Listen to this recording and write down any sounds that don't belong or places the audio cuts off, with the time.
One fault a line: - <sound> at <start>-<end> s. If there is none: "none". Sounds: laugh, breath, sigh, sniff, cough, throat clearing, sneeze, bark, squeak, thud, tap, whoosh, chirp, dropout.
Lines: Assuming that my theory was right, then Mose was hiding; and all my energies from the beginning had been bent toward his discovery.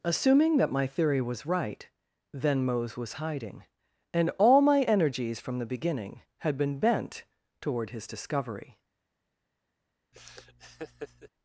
- laugh at 10.1-11.3 s